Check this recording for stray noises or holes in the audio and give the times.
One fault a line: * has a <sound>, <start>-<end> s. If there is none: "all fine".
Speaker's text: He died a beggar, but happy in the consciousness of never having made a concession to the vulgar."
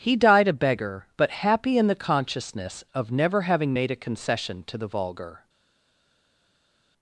all fine